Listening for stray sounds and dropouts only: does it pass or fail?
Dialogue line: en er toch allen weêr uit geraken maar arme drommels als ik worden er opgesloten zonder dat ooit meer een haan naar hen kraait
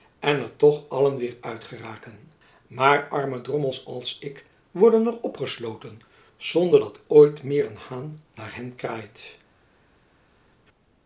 pass